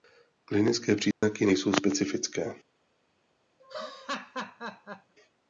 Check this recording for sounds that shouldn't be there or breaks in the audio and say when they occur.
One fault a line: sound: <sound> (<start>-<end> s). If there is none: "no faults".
sound: dropout (1.1-1.2 s)
sound: laugh (3.6-5.1 s)